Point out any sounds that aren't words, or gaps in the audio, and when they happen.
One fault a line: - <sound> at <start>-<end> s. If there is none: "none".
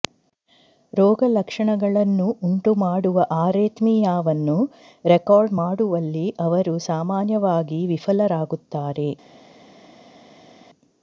none